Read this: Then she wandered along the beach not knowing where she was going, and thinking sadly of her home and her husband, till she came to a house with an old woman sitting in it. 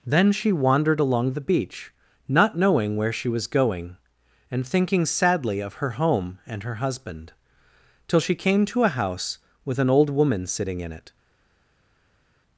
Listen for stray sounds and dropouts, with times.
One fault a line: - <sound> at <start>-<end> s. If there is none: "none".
none